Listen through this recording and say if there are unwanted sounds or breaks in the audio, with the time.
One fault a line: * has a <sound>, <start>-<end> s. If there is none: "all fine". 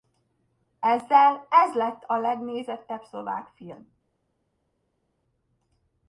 all fine